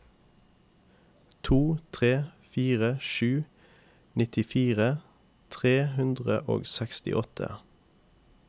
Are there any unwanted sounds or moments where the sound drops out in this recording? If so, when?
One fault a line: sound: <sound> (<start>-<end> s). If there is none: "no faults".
no faults